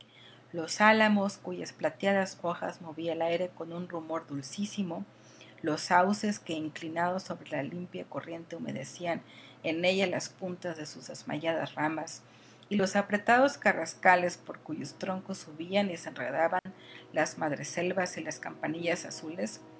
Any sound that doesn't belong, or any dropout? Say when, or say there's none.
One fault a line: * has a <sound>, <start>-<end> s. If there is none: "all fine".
* has a dropout, 16.6-16.7 s